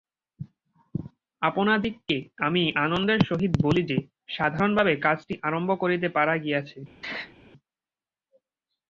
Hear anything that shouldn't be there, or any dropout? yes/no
yes